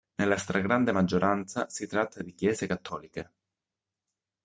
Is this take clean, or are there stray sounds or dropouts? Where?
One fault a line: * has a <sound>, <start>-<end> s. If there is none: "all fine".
all fine